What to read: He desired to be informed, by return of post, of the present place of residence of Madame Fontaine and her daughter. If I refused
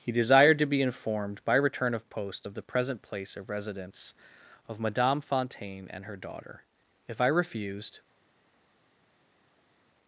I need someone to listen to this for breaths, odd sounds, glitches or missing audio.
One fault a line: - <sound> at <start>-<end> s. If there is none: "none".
none